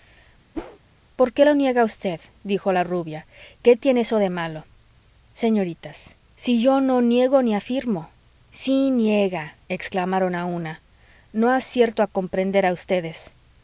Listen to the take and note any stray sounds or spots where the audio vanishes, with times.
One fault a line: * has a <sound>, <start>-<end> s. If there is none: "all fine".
* has a whoosh, 0.5-0.8 s